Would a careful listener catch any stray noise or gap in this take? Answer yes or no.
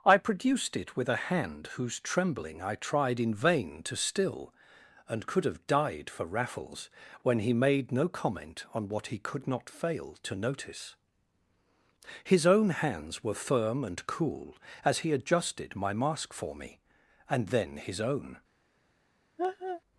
yes